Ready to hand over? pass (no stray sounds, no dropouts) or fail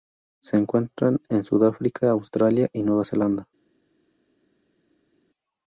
pass